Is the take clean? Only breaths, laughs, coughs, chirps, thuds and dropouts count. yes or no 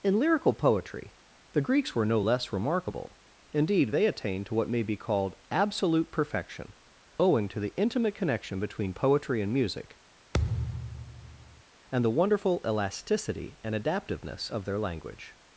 no